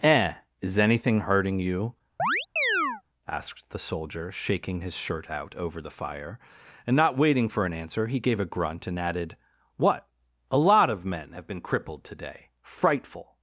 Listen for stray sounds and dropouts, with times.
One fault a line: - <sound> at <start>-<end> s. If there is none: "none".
- chirp at 2.2-3.0 s